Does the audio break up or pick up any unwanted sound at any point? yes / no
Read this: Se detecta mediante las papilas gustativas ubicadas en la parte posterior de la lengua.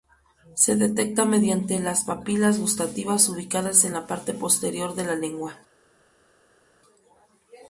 no